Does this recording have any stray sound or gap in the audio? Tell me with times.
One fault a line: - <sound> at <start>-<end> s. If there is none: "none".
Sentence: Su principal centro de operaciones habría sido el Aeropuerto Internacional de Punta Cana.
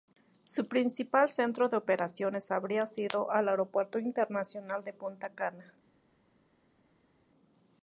none